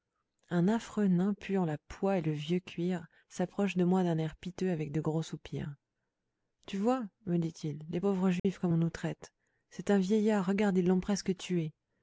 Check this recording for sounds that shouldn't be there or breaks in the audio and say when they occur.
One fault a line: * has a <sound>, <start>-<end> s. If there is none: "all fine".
* has a dropout, 8.4-8.4 s